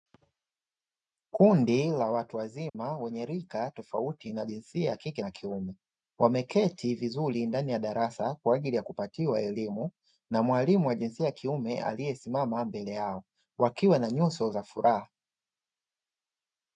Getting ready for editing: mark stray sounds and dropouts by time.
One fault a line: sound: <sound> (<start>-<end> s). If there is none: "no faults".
sound: dropout (2.7-2.7 s)